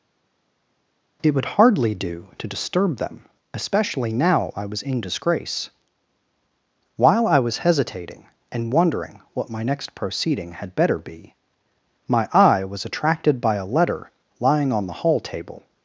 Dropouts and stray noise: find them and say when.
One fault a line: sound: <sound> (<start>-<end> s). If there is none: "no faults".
no faults